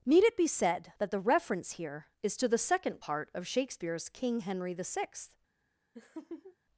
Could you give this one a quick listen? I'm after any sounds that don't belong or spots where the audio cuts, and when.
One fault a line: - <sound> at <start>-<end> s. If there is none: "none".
- laugh at 5.9-6.6 s